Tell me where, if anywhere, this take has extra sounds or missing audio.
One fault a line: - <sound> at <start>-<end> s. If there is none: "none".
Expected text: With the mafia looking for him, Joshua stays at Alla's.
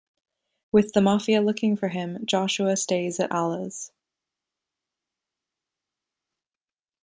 none